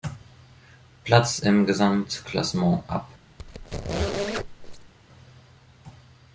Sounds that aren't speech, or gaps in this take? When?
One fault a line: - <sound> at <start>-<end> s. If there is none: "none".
- squeak at 3.4-4.9 s